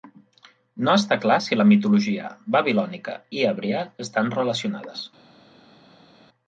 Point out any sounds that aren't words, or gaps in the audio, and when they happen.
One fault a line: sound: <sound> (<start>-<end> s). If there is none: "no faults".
no faults